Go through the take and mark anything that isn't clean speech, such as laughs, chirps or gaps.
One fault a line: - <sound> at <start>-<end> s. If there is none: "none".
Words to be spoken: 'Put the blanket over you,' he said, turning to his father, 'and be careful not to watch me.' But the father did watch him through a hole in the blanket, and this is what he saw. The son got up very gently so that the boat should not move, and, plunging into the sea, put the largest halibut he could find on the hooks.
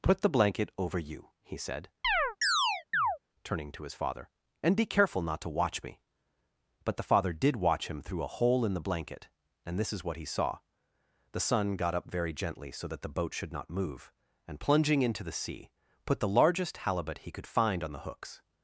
- chirp at 2.0-3.2 s